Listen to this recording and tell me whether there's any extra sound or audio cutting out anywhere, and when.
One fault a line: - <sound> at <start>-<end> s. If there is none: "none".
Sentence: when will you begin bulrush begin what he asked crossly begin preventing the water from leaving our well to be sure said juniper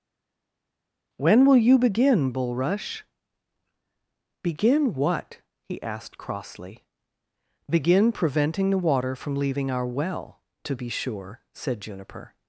none